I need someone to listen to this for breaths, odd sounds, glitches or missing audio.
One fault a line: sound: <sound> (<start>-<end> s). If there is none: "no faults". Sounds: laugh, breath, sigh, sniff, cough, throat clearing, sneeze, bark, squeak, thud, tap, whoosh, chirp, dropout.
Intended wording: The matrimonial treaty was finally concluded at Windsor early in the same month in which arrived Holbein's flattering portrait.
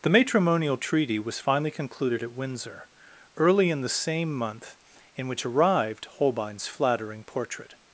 no faults